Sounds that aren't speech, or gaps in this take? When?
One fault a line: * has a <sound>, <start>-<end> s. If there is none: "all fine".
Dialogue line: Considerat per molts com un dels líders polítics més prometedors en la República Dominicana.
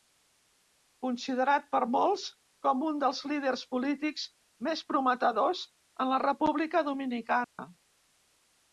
* has a dropout, 7.4-7.6 s